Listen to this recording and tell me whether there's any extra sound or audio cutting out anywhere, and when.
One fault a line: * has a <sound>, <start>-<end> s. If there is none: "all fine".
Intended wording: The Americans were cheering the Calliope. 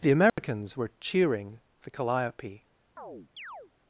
* has a dropout, 0.3-0.4 s
* has a chirp, 3.0-3.7 s